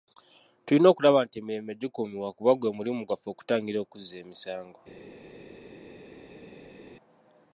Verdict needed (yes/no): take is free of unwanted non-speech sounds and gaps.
yes